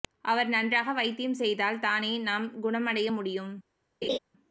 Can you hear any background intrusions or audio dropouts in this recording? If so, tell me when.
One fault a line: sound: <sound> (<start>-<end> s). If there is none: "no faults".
sound: laugh (4.0-4.2 s)